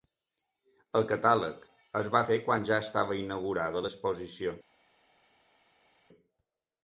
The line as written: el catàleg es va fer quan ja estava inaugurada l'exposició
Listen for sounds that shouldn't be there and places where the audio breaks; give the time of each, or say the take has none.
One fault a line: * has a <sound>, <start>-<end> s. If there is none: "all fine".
all fine